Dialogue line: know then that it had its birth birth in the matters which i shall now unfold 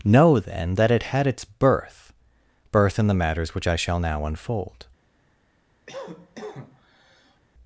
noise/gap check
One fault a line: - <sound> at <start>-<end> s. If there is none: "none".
- cough at 5.9-7.4 s